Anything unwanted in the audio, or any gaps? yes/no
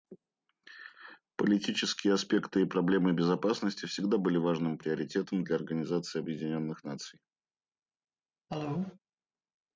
yes